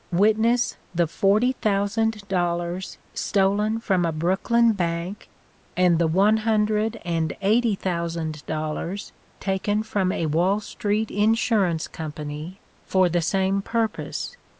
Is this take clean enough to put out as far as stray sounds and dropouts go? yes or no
yes